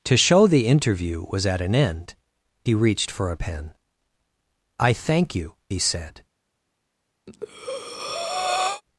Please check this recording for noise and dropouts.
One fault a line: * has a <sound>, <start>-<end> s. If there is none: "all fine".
* has a breath, 7.3-8.8 s